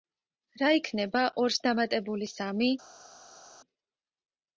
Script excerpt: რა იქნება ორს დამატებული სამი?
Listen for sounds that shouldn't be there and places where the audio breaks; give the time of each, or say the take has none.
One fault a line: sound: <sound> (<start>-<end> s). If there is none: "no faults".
no faults